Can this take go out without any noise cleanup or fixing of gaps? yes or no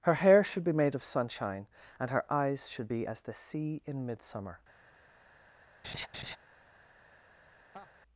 no